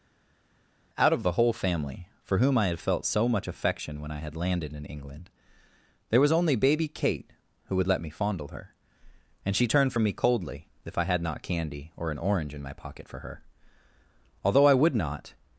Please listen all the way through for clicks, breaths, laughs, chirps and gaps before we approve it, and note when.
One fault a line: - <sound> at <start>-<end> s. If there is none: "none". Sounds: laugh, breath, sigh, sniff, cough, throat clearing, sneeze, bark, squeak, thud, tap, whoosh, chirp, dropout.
none